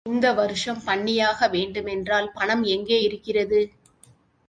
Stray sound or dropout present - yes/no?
no